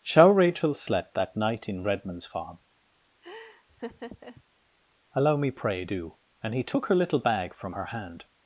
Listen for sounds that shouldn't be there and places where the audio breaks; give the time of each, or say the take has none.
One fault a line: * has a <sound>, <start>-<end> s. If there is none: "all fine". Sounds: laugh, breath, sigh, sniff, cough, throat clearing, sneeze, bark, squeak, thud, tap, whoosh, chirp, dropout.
* has a laugh, 3.2-4.4 s